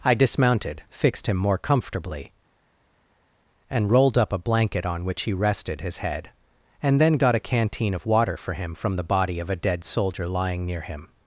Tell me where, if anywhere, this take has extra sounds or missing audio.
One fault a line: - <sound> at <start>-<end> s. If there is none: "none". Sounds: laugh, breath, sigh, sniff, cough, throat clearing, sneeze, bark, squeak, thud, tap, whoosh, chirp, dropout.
none